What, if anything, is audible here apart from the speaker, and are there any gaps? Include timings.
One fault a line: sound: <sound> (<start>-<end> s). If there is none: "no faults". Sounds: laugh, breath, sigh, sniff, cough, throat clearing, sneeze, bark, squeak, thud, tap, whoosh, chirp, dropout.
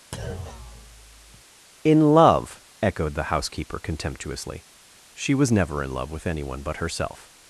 sound: thud (0.1-1.4 s)